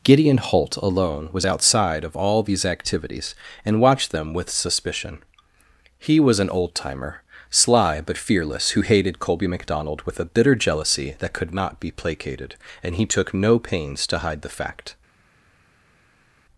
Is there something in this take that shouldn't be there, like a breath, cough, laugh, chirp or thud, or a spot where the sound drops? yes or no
no